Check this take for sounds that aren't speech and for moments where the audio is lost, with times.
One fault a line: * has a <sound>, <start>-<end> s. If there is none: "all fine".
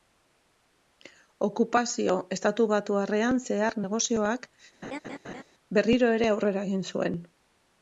* has a laugh, 4.8-5.4 s